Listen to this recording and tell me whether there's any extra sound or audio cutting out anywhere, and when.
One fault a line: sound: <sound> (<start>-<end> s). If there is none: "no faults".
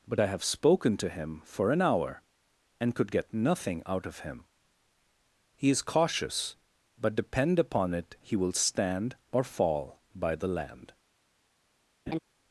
sound: laugh (12.1-12.2 s)